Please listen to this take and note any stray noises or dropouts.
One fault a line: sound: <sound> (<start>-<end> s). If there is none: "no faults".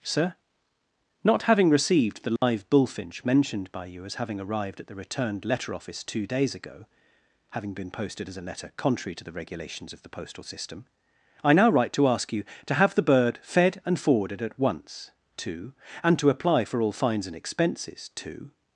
sound: dropout (2.4-2.4 s)